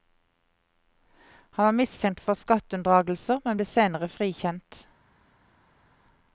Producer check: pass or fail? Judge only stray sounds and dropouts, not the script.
pass